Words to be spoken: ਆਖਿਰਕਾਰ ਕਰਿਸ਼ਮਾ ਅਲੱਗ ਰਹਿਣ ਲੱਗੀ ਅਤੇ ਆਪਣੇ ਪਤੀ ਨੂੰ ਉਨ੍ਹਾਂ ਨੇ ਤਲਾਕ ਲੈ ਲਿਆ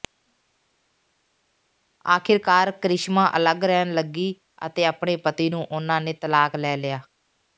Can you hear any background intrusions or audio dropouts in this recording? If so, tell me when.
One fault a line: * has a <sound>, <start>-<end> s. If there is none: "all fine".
all fine